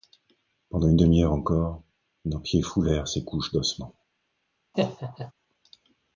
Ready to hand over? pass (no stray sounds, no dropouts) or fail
fail